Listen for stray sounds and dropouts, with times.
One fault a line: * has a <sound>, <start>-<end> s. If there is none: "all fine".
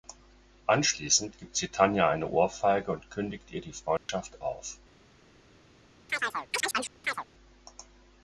* has a dropout, 4.0-4.1 s
* has a chirp, 6.1-7.2 s